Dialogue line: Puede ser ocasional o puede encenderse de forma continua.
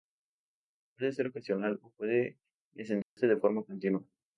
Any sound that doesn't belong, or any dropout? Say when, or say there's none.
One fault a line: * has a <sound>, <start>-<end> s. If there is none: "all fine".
* has a dropout, 3.0-3.2 s